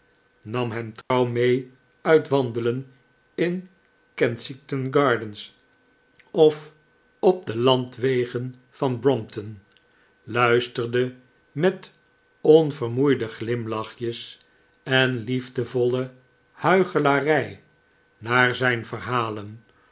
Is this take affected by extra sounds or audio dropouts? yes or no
yes